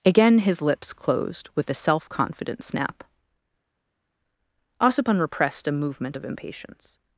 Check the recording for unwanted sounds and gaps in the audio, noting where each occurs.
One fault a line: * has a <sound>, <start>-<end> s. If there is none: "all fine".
all fine